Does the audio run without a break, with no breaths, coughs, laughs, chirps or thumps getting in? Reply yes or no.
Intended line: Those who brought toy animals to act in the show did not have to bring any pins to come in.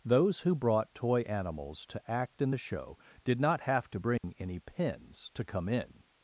no